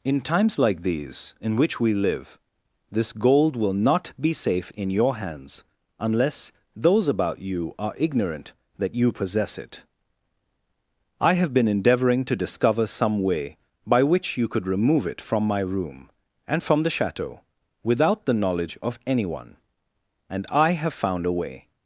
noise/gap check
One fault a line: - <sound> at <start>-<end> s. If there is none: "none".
none